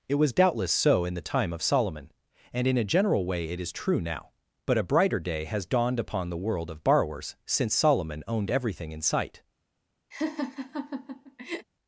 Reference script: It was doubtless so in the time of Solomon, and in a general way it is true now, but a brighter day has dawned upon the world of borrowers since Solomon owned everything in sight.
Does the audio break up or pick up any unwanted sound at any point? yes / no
yes